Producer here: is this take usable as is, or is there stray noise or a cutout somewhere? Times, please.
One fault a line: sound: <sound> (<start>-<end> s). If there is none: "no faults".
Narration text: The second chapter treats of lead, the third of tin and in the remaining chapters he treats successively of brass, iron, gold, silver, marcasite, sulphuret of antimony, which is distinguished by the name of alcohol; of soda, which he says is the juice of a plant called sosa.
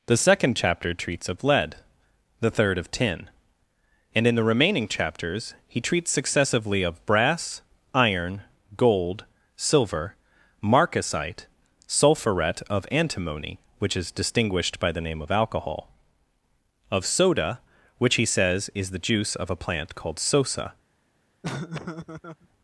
sound: laugh (21.4-22.5 s)